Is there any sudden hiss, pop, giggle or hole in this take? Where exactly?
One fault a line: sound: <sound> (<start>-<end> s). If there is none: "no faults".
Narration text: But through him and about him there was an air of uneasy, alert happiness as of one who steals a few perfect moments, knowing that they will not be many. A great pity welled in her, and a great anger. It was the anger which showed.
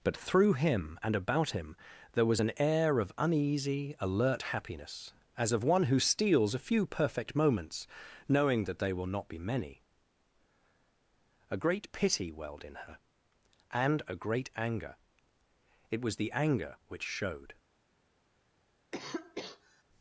sound: cough (18.9-19.8 s)